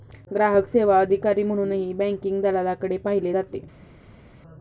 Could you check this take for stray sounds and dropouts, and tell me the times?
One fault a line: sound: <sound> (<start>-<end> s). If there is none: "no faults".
no faults